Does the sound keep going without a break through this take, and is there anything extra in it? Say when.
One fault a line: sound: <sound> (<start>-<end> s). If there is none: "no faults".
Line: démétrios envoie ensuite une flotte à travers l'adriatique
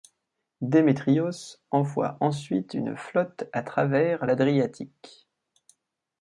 no faults